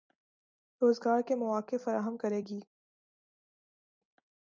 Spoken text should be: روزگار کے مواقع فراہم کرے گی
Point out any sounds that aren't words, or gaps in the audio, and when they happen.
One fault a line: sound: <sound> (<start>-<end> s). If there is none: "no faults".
no faults